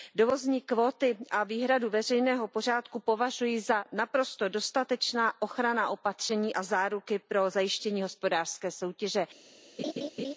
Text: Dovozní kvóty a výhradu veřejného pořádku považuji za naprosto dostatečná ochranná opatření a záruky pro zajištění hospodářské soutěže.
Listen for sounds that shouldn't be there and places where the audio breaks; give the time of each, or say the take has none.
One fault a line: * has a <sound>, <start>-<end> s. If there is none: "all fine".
* has a laugh, 9.8-10.3 s